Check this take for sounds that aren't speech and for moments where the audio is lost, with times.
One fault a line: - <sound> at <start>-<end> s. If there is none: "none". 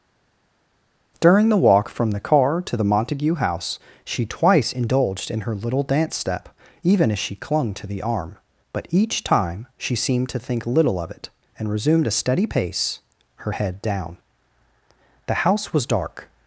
none